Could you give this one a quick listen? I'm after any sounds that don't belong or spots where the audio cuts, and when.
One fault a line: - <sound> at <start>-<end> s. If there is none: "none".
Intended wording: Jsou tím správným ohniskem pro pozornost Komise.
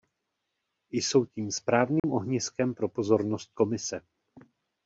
- dropout at 2.0-2.0 s